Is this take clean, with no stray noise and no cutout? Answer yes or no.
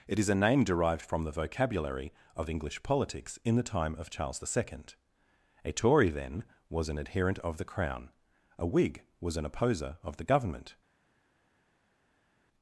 yes